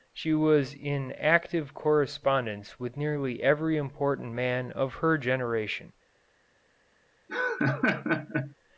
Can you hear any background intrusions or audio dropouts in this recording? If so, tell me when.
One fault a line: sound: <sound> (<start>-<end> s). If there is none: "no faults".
sound: laugh (7.3-8.5 s)